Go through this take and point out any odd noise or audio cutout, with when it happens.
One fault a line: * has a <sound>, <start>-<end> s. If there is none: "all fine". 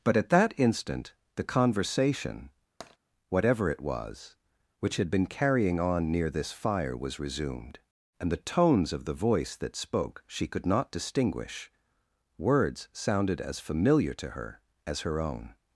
* has a tap, 2.8-3.0 s